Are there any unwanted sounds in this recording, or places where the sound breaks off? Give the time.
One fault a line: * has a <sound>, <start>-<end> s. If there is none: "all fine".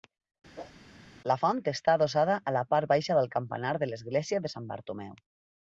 * has a whoosh, 0.6-0.7 s